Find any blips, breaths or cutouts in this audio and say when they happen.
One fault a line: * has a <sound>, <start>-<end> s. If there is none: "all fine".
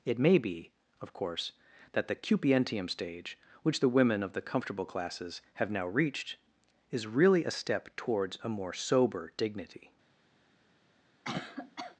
* has a cough, 11.2-12.0 s